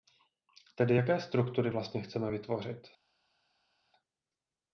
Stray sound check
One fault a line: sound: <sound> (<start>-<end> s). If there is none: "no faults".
no faults